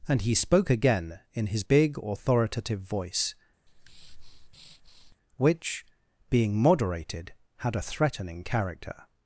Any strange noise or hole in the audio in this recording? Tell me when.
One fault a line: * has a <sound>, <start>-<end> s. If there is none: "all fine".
* has a breath, 3.7-5.2 s